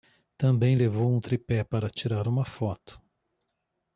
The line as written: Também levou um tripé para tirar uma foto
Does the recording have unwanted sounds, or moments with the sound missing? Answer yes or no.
no